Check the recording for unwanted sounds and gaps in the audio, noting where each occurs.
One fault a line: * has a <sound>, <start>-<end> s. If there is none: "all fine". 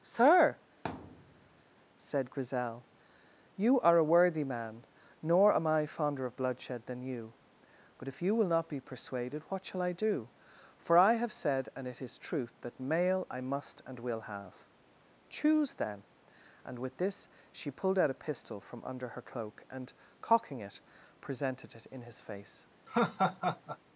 * has a thud, 0.8-1.6 s
* has a laugh, 22.9-23.8 s